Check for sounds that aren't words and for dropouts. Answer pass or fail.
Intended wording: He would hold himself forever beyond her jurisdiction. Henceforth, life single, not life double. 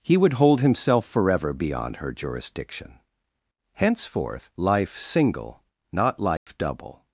fail